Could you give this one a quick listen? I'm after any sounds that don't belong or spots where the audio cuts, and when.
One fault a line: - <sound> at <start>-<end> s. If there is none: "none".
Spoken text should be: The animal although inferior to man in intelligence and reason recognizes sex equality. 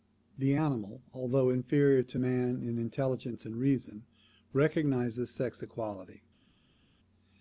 none